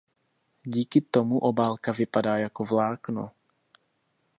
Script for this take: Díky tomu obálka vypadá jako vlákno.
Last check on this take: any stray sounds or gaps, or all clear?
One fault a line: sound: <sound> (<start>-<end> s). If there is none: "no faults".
no faults